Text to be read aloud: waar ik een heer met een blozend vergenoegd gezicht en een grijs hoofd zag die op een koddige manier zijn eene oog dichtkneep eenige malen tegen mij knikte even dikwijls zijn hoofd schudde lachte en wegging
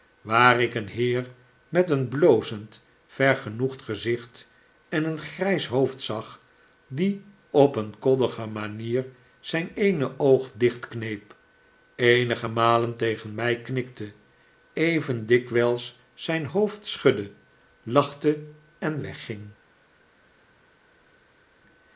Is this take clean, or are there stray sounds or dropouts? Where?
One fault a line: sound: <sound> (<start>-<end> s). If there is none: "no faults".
no faults